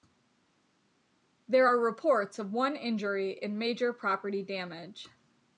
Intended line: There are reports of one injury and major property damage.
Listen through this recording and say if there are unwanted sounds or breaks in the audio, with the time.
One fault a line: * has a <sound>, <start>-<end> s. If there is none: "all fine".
all fine